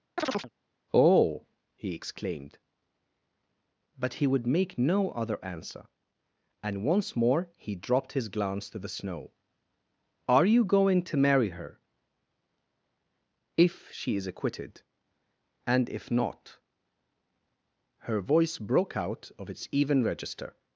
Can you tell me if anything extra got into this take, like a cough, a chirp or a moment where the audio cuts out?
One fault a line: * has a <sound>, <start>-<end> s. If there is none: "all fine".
* has a chirp, 0.2-0.5 s